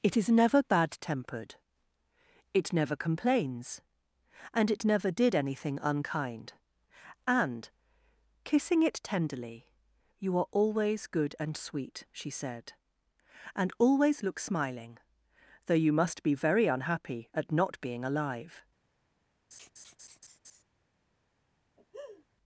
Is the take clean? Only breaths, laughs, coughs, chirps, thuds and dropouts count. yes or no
no